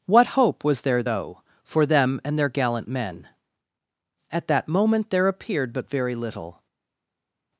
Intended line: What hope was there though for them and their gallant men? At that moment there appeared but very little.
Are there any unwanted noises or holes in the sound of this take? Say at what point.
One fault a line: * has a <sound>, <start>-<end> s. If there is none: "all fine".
all fine